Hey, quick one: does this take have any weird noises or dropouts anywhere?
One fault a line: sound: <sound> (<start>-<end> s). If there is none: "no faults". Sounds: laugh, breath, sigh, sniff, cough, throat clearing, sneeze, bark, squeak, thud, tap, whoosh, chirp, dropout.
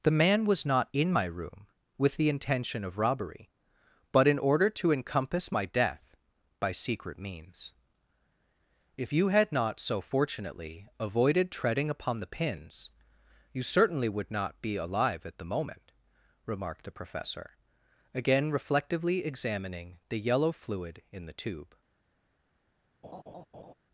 sound: laugh (23.0-23.7 s)